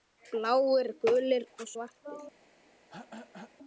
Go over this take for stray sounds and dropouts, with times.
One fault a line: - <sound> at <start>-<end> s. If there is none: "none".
- throat clearing at 2.9-3.6 s